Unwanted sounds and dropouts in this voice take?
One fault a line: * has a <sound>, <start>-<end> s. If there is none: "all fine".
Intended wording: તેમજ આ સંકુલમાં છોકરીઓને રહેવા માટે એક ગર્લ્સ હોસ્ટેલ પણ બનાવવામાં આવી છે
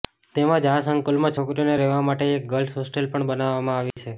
* has a dropout, 3.9-4.0 s